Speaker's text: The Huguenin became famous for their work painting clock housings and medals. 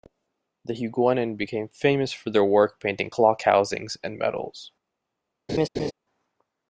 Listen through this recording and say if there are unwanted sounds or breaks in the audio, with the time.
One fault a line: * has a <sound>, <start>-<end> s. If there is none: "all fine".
* has a laugh, 5.5-5.9 s